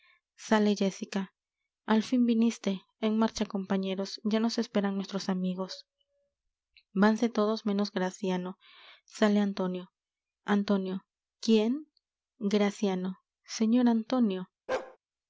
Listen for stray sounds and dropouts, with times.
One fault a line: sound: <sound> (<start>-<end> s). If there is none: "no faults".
sound: bark (14.7-15.0 s)